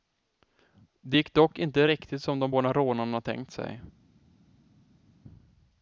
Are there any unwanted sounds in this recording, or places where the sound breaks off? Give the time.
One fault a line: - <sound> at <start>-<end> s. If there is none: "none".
none